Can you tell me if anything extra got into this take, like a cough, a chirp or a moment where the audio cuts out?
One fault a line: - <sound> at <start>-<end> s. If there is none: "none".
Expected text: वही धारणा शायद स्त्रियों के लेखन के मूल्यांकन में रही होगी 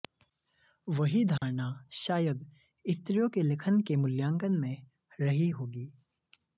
- dropout at 1.4-1.4 s